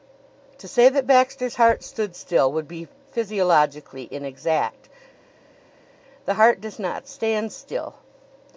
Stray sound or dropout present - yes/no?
no